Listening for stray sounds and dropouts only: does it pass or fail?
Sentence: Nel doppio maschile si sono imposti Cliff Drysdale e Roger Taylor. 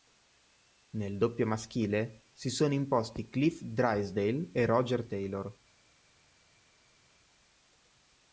pass